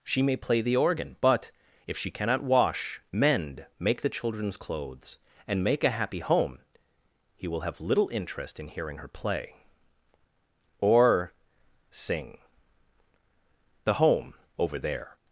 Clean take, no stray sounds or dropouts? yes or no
yes